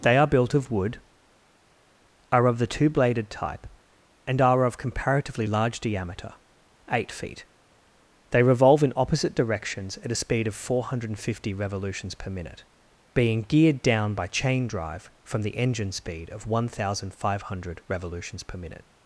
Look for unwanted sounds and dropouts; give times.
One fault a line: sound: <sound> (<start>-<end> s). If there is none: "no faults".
no faults